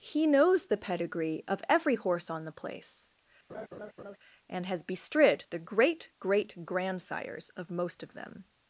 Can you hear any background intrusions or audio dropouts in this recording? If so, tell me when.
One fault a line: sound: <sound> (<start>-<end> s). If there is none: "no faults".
sound: laugh (3.5-4.2 s)